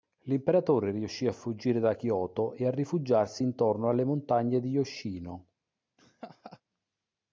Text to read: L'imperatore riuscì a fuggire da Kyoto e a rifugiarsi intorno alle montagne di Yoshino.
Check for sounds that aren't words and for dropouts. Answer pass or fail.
fail